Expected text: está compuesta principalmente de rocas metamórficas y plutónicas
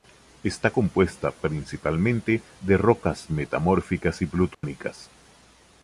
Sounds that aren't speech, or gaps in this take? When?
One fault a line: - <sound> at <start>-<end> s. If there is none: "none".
- dropout at 4.5-4.6 s